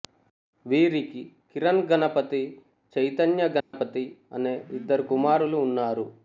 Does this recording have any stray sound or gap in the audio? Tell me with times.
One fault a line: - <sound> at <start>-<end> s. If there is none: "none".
- dropout at 3.6-3.7 s